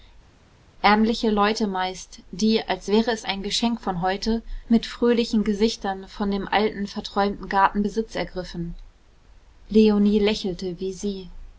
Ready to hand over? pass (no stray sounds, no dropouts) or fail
pass